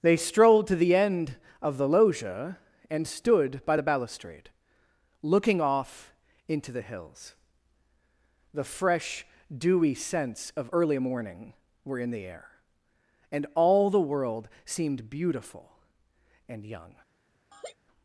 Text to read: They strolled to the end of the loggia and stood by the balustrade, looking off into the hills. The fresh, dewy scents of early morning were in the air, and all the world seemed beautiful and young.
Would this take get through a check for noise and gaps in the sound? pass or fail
fail